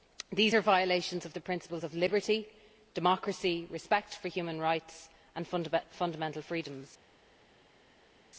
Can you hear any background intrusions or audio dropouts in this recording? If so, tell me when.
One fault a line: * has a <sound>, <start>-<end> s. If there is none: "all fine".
all fine